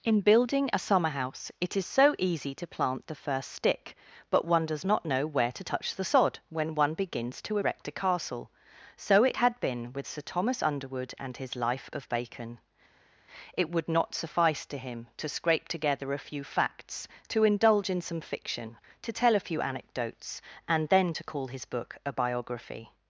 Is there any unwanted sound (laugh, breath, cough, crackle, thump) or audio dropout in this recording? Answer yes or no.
no